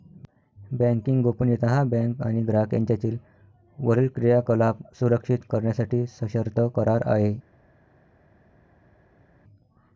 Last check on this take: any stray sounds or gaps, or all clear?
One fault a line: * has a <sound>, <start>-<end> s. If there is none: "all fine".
all fine